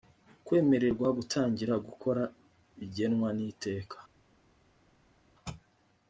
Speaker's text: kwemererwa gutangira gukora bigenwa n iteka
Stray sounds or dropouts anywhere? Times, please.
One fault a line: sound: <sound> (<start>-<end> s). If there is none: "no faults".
no faults